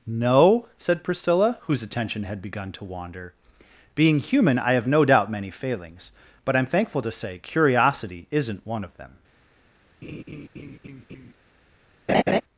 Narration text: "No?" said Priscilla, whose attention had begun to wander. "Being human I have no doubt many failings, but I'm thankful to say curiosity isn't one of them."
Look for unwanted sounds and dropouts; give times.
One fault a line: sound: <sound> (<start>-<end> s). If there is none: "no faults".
sound: laugh (10.0-11.3 s)
sound: laugh (12.1-12.4 s)